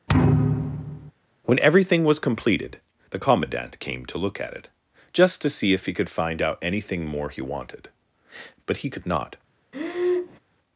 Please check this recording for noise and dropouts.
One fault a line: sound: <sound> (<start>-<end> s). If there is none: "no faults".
sound: thud (0.1-1.1 s)
sound: breath (9.7-10.4 s)